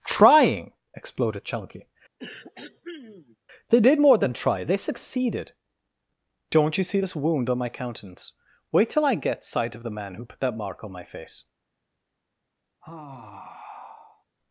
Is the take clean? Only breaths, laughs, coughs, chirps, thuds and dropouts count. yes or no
no